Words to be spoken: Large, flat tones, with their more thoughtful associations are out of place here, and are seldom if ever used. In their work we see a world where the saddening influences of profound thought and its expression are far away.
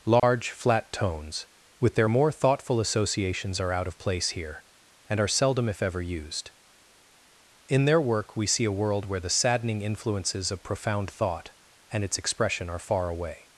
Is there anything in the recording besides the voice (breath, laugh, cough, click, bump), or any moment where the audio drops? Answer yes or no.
yes